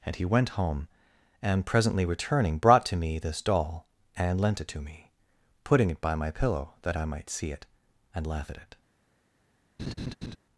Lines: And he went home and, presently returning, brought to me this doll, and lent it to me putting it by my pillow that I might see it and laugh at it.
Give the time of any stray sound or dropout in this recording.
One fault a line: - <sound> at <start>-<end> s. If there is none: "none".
- laugh at 9.8-10.4 s